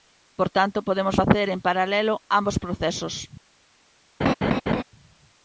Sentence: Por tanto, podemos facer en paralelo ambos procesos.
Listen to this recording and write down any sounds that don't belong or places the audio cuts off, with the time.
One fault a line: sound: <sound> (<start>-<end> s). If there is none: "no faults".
sound: laugh (4.2-4.8 s)